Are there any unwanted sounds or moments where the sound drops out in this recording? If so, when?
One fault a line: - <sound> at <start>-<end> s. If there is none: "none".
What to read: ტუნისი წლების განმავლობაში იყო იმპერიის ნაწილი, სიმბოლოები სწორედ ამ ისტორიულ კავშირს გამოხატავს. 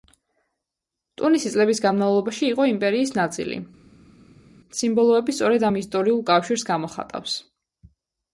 none